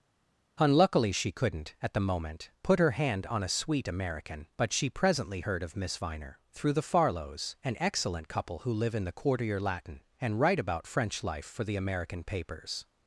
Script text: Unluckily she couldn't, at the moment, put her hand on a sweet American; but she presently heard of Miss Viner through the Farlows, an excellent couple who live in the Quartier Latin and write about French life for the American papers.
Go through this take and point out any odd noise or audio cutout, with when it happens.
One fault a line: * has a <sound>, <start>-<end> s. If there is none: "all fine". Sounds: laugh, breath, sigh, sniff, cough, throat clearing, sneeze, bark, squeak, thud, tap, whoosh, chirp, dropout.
all fine